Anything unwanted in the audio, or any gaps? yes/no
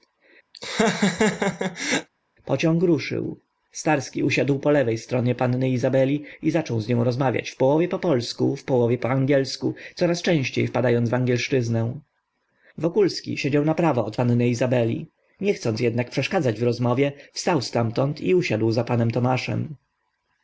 yes